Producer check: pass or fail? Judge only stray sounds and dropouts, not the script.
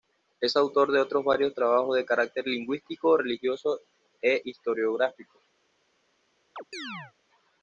fail